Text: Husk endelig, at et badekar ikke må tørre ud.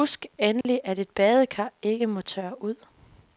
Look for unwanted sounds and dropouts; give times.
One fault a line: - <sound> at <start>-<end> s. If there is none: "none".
- dropout at 0.6-0.6 s